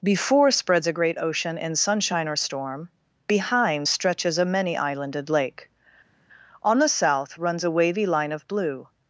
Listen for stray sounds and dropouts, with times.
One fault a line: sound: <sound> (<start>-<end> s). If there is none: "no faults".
no faults